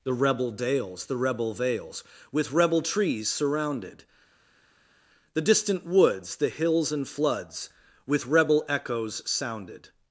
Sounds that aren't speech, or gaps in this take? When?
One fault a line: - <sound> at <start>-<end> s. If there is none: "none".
none